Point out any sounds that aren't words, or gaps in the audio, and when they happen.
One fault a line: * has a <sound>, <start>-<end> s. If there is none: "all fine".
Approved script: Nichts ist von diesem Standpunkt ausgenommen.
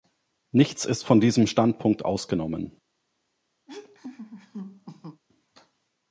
* has a laugh, 3.7-5.2 s